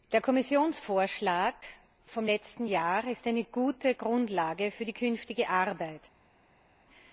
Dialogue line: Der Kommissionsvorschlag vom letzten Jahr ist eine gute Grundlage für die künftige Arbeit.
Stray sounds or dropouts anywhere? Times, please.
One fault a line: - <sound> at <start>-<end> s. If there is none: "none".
none